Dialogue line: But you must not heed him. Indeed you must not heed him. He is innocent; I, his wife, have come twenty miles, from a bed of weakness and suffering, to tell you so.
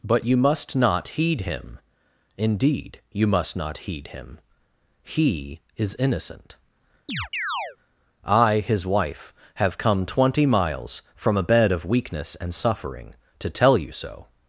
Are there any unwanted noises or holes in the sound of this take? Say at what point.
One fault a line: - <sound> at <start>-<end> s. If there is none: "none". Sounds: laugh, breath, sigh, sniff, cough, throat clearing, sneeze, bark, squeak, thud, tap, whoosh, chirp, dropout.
- chirp at 7.1-7.8 s